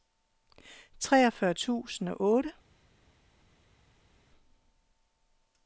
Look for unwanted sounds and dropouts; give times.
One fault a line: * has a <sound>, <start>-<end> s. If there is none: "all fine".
all fine